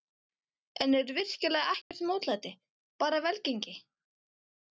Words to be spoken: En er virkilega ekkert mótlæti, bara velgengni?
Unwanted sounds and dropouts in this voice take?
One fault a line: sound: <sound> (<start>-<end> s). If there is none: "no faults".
sound: dropout (1.8-1.9 s)